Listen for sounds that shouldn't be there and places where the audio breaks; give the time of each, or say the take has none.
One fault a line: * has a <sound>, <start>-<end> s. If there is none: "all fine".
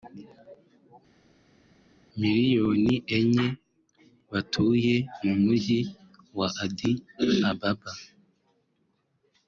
all fine